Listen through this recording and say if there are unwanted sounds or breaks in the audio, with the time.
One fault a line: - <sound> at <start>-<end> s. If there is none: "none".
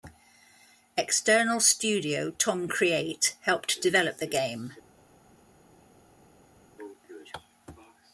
none